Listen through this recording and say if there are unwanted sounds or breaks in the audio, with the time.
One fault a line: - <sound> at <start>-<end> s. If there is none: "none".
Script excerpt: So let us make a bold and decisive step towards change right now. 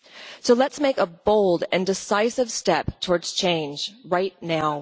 none